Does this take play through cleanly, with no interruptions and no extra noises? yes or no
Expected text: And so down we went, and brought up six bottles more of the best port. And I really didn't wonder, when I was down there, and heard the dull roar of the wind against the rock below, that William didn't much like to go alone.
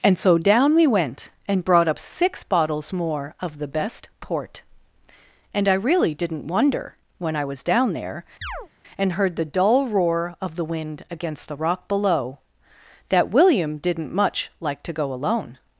no